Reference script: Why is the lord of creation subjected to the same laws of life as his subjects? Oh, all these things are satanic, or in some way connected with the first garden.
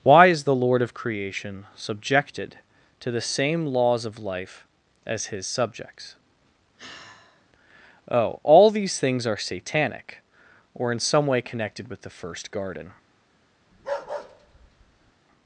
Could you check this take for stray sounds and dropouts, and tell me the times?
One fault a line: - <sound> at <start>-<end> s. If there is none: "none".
- sigh at 6.8-7.5 s
- bark at 13.7-15.1 s